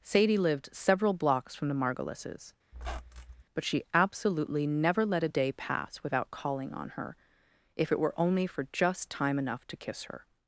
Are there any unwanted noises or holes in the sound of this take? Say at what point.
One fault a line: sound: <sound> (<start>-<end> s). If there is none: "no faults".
sound: squeak (2.7-3.4 s)